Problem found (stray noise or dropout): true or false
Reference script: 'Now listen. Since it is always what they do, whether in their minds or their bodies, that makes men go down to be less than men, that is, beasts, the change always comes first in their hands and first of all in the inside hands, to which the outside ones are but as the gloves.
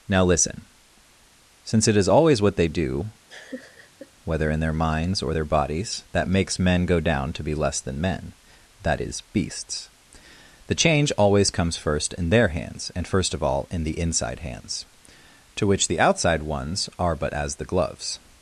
true